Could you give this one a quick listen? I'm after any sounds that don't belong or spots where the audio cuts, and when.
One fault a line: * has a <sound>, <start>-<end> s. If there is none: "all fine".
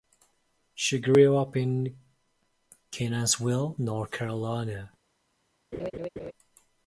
* has a laugh, 5.7-6.3 s